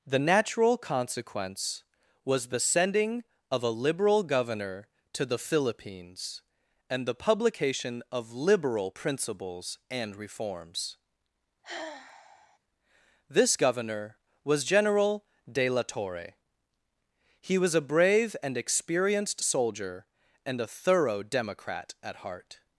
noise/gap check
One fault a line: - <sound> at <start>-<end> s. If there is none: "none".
- sigh at 11.6-12.6 s